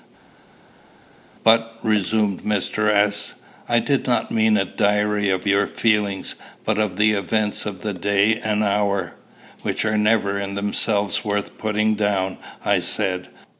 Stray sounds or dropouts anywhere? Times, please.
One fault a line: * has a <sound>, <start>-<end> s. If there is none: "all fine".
all fine